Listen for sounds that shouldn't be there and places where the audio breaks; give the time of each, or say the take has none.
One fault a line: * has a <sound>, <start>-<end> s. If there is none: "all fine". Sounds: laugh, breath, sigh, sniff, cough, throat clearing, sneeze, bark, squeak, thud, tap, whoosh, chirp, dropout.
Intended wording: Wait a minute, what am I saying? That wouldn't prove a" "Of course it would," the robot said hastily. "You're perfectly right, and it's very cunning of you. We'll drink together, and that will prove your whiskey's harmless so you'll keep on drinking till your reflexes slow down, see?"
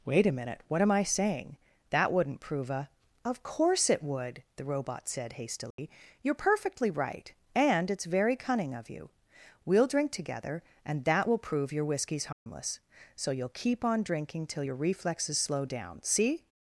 * has a dropout, 5.7-5.8 s
* has a dropout, 12.3-12.5 s